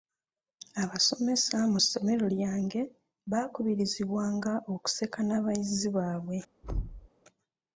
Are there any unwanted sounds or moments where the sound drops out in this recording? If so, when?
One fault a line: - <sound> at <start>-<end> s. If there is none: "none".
- thud at 6.6-7.1 s